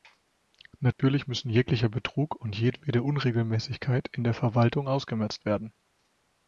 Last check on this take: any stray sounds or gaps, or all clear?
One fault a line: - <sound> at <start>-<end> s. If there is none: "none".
- dropout at 0.9-1.0 s